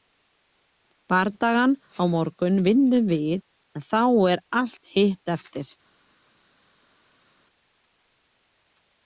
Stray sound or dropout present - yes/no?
no